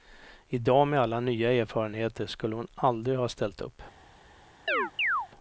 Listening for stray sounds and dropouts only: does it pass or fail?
fail